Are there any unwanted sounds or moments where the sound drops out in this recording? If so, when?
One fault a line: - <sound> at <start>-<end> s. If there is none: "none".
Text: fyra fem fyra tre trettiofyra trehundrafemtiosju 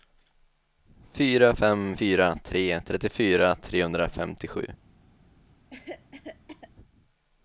- cough at 5.7-6.7 s